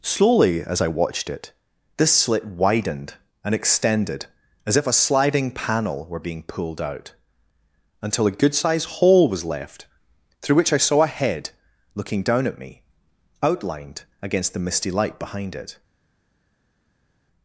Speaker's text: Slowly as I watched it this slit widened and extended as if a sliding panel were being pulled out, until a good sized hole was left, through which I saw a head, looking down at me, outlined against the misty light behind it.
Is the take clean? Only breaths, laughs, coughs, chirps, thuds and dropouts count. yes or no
yes